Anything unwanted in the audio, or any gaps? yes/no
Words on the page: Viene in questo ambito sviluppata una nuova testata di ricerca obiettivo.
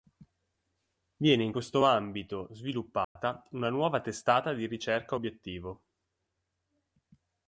yes